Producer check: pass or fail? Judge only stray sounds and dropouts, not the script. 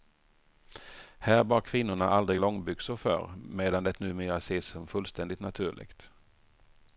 pass